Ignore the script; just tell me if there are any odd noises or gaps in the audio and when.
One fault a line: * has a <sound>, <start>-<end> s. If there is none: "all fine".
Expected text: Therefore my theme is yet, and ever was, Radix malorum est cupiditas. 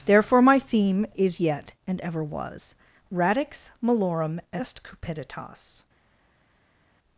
all fine